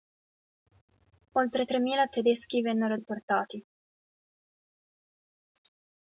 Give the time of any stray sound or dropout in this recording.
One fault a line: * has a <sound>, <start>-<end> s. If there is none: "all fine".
all fine